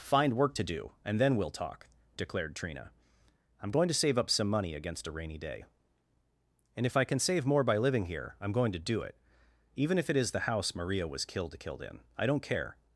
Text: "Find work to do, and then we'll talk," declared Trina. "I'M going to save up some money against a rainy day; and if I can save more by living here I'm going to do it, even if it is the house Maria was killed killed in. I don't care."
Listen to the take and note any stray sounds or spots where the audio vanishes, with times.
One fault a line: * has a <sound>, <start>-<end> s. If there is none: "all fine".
all fine